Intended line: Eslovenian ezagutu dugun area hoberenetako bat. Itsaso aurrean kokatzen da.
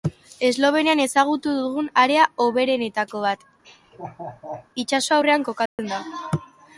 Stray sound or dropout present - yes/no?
yes